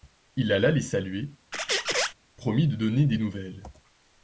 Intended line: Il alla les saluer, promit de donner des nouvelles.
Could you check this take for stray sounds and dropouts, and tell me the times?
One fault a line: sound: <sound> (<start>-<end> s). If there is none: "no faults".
sound: squeak (1.5-2.1 s)